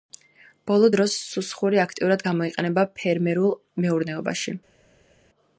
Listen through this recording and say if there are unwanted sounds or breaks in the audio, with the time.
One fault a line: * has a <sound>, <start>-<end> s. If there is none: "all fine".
all fine